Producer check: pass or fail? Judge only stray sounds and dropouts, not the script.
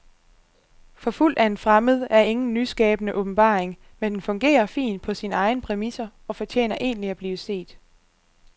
pass